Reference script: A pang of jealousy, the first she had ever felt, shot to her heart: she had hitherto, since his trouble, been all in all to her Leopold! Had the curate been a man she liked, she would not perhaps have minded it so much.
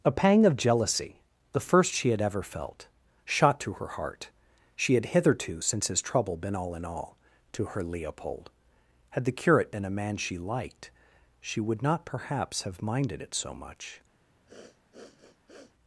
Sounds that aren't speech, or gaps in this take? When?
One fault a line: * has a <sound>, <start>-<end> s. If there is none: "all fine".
* has a sniff, 14.5-15.7 s